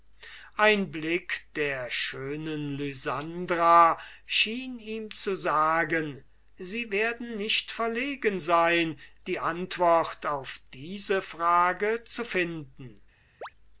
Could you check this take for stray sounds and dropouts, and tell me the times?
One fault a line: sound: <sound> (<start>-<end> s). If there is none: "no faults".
sound: chirp (13.4-13.5 s)